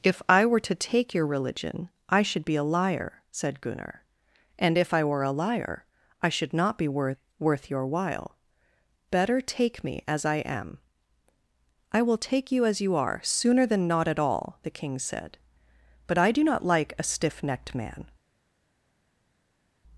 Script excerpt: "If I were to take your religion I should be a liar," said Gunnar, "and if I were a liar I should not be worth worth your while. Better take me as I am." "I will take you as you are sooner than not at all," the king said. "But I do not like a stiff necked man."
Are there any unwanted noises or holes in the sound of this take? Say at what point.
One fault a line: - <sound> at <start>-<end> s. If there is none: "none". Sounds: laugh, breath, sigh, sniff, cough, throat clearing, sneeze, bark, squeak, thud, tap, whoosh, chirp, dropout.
none